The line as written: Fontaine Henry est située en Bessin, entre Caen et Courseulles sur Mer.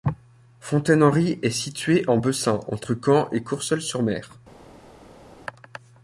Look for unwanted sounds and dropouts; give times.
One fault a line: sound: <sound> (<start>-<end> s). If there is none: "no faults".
no faults